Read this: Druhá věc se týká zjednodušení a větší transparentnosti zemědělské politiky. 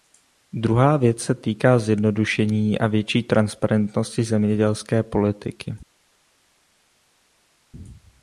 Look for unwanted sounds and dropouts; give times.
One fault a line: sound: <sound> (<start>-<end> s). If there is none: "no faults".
no faults